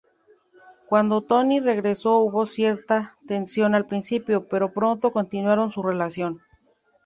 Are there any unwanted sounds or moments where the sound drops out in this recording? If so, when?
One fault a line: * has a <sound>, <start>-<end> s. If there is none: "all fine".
all fine